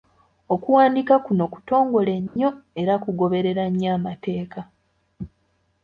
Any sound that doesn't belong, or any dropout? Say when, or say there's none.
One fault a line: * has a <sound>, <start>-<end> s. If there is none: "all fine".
* has a dropout, 2.3-2.4 s